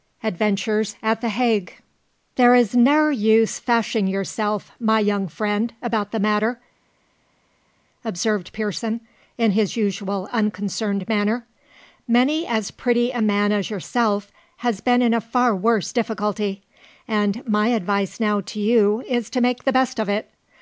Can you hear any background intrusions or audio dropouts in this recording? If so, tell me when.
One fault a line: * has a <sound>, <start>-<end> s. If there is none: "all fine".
all fine